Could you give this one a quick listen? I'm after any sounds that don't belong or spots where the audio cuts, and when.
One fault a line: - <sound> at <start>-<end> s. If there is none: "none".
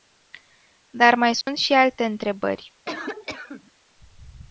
- dropout at 1.4-1.5 s
- cough at 2.9-3.7 s